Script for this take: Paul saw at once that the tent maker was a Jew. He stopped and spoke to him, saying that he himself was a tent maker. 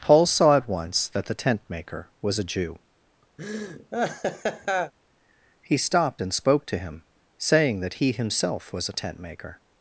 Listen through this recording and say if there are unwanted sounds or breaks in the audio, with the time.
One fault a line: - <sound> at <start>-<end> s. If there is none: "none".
- laugh at 3.4-4.9 s